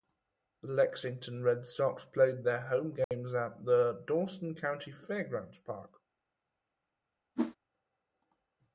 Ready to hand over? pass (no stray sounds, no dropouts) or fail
fail